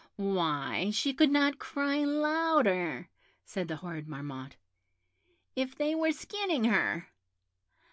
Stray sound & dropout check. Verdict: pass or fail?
pass